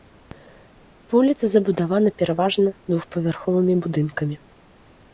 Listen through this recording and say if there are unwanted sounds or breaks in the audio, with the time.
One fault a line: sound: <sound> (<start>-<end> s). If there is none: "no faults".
no faults